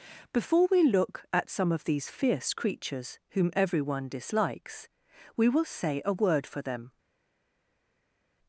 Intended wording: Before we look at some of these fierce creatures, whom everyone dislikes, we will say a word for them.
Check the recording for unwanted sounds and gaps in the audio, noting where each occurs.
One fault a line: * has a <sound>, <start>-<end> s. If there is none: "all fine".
all fine